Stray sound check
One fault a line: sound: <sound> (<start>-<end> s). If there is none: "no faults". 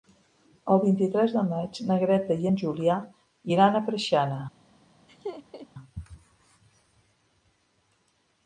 sound: laugh (5.1-5.7 s)